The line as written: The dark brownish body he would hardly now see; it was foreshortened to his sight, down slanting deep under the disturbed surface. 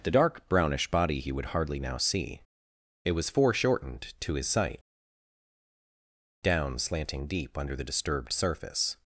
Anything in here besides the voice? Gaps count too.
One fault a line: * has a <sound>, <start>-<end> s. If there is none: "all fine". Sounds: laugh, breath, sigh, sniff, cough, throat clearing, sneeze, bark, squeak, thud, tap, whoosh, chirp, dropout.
all fine